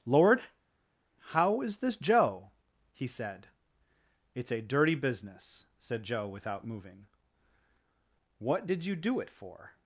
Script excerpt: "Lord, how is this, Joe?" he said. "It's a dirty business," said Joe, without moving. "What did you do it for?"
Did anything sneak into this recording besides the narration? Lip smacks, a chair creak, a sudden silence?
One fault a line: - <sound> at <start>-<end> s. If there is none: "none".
none